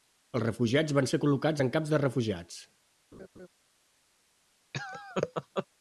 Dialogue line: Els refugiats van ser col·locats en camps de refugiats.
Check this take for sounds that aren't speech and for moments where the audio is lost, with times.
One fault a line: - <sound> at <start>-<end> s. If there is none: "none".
- laugh at 3.1-3.5 s
- laugh at 4.7-5.7 s